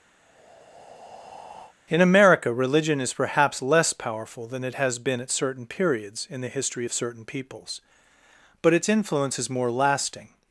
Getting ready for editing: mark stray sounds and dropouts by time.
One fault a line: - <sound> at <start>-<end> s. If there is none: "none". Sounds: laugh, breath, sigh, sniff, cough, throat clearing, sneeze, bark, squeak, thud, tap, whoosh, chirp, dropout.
- breath at 0.2-1.7 s